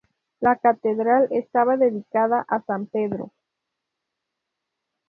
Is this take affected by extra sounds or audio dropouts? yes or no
no